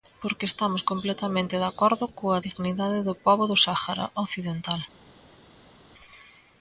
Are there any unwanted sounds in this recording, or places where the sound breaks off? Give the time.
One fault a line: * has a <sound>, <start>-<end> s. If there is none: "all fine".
all fine